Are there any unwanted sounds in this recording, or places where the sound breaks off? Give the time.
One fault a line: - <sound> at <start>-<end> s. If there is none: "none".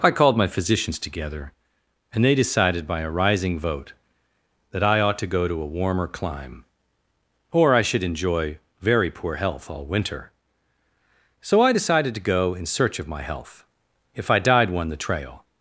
none